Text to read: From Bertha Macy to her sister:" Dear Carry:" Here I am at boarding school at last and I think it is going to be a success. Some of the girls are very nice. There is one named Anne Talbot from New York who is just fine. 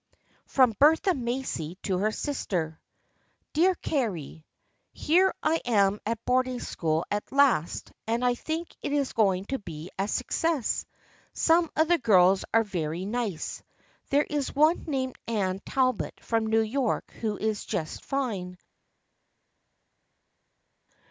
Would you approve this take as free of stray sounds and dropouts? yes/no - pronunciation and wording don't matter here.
yes